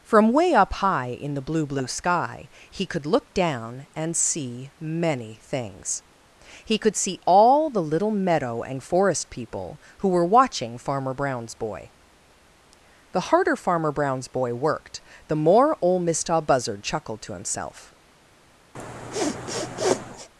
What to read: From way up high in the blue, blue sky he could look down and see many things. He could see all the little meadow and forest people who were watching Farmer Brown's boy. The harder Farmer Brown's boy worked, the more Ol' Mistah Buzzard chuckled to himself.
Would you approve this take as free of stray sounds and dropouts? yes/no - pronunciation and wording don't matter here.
no